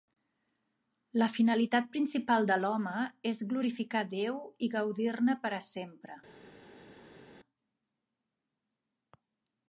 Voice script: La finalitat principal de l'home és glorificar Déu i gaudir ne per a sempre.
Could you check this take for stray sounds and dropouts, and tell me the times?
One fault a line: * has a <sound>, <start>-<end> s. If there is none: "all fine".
all fine